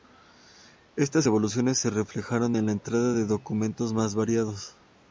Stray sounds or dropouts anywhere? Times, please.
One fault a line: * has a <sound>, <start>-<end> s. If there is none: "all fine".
all fine